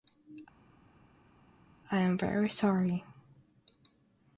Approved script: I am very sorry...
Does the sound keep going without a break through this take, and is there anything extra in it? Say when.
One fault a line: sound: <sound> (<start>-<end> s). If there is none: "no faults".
no faults